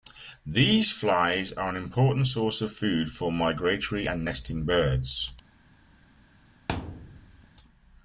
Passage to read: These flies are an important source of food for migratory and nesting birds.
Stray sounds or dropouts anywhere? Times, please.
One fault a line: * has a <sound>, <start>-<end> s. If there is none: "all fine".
* has a thud, 6.7-7.5 s